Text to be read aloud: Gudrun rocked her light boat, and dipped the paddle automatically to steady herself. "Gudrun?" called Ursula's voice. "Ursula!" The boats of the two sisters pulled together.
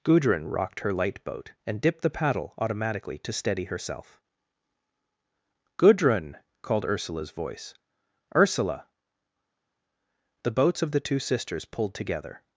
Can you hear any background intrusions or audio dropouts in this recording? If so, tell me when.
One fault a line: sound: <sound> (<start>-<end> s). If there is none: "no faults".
no faults